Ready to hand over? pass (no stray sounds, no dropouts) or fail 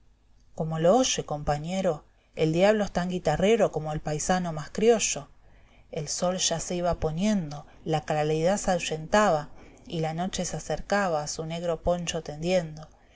pass